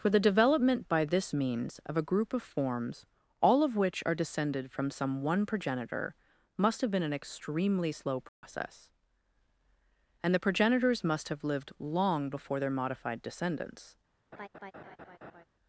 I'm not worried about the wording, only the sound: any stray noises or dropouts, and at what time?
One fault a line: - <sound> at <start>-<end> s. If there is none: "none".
- dropout at 8.3-8.4 s
- laugh at 14.3-15.4 s